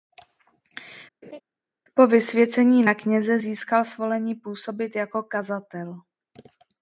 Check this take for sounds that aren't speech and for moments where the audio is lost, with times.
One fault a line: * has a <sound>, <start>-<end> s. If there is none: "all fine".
* has a laugh, 1.2-1.4 s